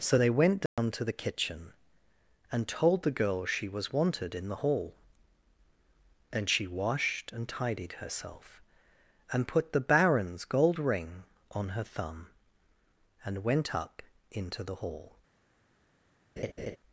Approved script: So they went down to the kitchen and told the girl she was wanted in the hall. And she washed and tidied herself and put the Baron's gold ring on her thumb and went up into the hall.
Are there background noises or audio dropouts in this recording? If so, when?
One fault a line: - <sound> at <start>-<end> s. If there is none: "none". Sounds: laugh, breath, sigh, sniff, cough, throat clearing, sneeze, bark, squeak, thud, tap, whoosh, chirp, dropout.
- dropout at 0.7-0.8 s
- laugh at 16.4-16.8 s